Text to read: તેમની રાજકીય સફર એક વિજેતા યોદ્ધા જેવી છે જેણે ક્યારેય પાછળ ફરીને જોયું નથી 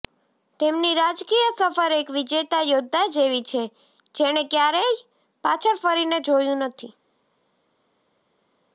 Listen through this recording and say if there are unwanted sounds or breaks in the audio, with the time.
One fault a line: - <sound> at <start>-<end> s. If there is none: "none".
none